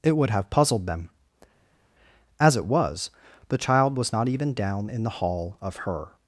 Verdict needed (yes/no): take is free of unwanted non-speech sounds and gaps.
yes